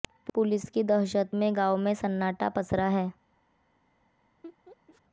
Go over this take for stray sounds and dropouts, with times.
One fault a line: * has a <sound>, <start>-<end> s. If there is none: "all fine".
* has a laugh, 4.4-5.0 s